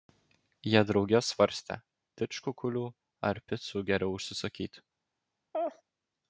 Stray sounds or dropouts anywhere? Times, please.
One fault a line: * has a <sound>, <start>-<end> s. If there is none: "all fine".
* has a laugh, 5.5-5.8 s